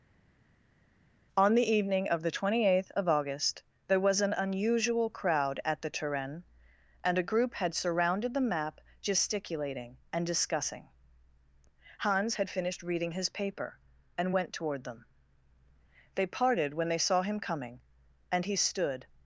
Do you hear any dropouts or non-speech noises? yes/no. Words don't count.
no